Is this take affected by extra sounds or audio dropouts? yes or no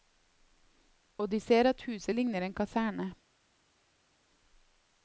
no